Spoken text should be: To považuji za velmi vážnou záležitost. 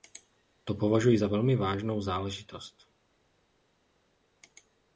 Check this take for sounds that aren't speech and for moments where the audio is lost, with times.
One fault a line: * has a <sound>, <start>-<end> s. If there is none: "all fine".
all fine